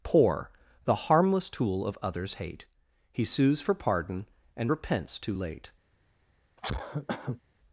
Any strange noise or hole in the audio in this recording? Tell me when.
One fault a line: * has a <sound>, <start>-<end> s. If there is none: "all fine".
* has a cough, 6.6-7.4 s